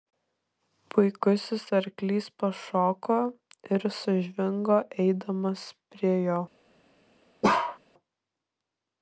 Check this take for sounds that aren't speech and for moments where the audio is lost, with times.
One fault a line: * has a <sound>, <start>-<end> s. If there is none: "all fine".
* has a bark, 7.4-7.8 s